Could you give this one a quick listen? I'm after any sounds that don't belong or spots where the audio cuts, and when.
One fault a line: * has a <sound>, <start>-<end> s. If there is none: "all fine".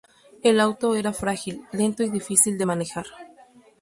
all fine